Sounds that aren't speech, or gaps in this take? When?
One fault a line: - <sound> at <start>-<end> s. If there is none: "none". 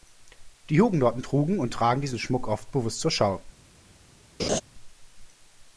- laugh at 4.4-4.6 s